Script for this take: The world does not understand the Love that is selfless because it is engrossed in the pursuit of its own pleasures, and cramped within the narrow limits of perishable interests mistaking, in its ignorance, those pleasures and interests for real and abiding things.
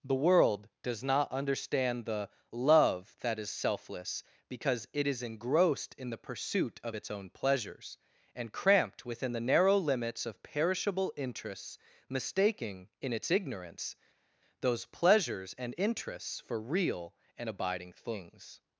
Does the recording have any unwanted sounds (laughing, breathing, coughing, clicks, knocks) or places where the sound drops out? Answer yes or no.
no